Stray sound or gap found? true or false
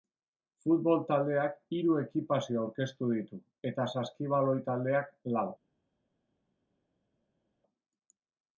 false